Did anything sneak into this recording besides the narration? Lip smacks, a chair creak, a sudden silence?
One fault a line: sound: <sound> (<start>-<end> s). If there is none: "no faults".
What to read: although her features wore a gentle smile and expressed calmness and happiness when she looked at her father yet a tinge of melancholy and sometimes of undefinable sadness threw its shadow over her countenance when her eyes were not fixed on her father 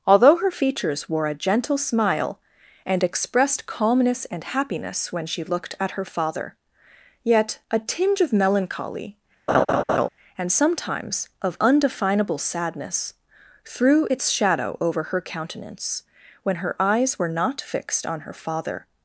sound: laugh (9.5-10.1 s)